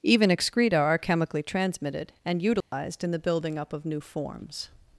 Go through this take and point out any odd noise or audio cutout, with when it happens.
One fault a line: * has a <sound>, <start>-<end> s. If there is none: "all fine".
* has a dropout, 2.6-2.7 s